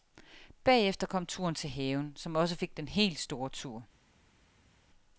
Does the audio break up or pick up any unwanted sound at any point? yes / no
no